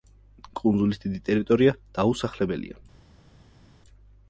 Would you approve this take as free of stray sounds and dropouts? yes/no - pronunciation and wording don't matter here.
yes